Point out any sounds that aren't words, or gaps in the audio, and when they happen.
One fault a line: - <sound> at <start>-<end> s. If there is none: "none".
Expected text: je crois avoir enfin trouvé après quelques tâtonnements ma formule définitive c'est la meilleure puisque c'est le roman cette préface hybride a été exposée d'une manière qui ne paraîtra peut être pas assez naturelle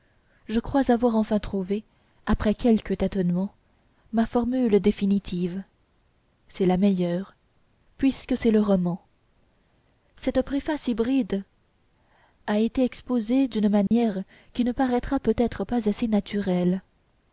- dropout at 13.9-13.9 s